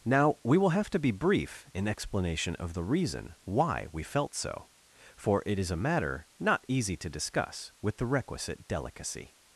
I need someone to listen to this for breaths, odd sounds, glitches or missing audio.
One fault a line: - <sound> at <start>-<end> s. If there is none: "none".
none